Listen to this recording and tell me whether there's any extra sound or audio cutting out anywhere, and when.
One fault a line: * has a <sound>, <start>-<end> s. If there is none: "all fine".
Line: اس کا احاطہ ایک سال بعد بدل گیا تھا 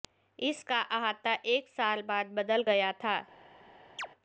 * has a chirp, 4.0-4.1 s